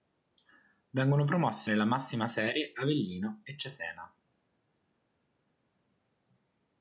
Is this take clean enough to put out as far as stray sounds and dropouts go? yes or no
yes